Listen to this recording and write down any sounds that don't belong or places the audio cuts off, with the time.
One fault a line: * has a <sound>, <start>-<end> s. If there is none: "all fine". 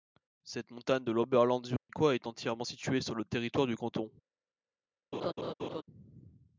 * has a dropout, 1.8-1.9 s
* has a laugh, 5.1-5.8 s